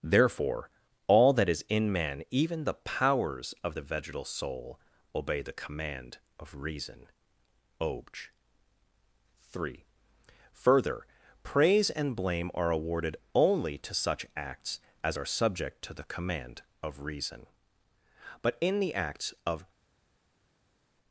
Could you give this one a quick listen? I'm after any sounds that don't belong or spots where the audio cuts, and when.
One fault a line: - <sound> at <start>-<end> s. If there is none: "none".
none